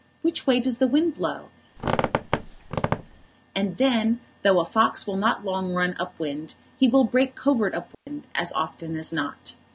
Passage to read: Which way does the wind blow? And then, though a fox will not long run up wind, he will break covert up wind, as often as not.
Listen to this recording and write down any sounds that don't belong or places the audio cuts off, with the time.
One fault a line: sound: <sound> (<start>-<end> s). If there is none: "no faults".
sound: squeak (1.8-3.3 s)
sound: dropout (7.9-8.1 s)